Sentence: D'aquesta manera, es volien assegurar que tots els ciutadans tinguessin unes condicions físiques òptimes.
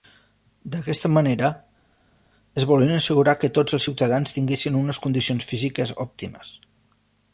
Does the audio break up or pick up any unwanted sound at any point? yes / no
no